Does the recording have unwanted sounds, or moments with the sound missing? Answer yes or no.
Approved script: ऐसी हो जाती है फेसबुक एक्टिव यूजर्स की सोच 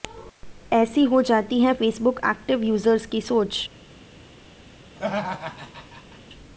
yes